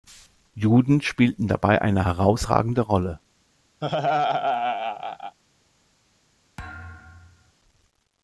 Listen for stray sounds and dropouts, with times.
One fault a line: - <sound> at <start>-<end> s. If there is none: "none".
- laugh at 3.8-5.4 s
- thud at 6.6-7.5 s